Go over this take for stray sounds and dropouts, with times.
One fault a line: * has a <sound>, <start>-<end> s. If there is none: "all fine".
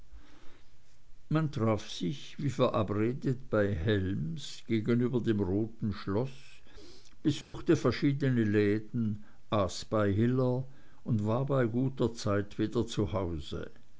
* has a dropout, 7.4-7.5 s